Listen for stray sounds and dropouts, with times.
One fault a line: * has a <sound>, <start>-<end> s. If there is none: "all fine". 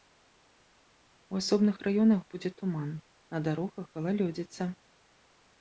all fine